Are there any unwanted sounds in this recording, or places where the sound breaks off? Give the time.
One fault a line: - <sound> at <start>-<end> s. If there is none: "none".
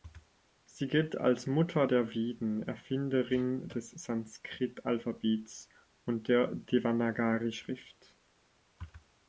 none